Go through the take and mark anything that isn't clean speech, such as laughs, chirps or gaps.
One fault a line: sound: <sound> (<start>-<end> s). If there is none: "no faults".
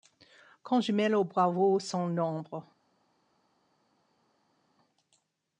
no faults